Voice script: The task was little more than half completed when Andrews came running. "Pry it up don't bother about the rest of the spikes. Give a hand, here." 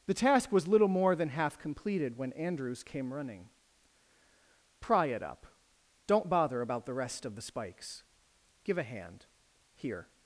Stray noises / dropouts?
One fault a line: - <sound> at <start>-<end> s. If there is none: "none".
none